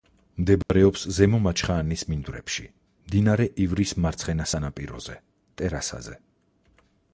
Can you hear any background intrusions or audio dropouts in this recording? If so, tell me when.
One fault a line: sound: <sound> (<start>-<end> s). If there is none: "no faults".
sound: dropout (0.6-0.7 s)